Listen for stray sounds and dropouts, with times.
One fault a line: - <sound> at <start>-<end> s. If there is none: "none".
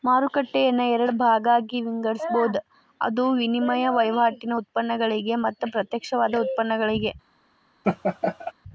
- laugh at 7.8-8.5 s